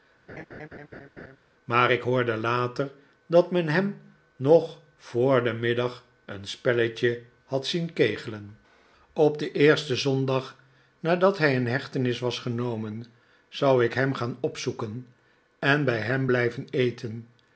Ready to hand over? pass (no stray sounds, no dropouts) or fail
fail